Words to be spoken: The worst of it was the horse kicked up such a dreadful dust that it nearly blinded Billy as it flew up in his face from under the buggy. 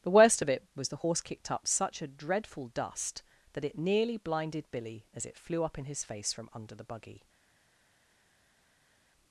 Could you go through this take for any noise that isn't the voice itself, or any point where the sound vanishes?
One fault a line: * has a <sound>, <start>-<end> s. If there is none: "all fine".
all fine